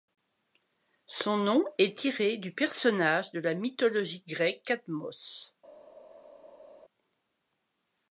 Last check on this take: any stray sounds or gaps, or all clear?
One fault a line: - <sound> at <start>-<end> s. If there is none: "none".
none